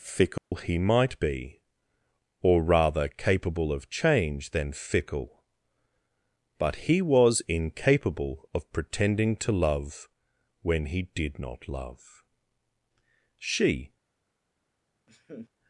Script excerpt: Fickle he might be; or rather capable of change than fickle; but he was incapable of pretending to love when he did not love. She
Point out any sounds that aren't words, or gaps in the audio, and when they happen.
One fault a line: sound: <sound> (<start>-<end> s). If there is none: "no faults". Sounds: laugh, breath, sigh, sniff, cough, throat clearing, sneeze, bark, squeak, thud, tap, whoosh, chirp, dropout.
sound: dropout (0.4-0.5 s)
sound: laugh (15.1-15.5 s)